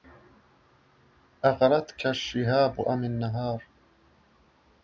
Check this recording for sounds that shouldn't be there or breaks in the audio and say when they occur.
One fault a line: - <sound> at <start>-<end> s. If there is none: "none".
none